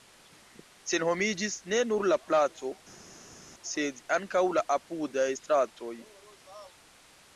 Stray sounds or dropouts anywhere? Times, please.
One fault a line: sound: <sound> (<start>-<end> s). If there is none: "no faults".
no faults